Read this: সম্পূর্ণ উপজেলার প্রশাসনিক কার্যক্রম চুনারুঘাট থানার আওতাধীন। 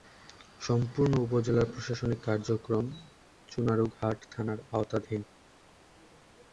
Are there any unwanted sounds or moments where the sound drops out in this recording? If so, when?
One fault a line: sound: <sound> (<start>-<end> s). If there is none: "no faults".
no faults